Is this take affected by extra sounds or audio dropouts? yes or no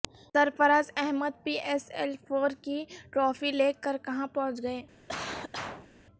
yes